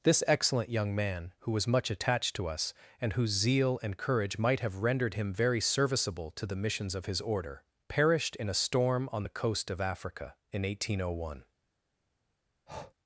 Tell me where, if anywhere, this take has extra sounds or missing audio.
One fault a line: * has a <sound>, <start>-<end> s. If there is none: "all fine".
* has a breath, 12.7-12.9 s